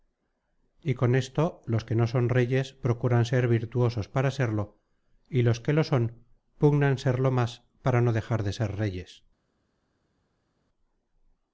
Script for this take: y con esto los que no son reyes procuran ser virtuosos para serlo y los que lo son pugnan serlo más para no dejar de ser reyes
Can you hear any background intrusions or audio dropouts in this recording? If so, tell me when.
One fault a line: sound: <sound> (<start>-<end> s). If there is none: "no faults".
no faults